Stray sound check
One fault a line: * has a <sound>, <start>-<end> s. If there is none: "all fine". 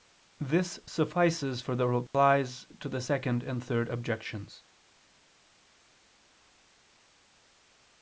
* has a dropout, 2.1-2.1 s